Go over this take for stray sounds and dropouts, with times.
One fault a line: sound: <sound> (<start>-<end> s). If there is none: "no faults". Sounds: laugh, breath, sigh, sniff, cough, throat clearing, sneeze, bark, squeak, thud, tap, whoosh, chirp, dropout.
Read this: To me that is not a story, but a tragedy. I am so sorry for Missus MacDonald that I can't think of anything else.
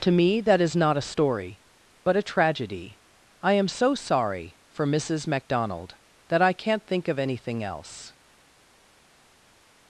no faults